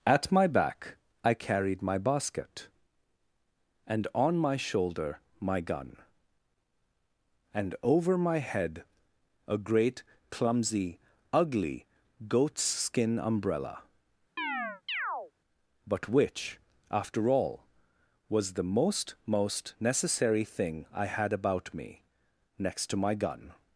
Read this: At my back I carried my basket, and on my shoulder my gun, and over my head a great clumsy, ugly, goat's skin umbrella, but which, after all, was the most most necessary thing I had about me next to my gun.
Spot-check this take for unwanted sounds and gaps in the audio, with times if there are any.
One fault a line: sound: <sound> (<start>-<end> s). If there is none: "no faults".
sound: chirp (14.4-15.3 s)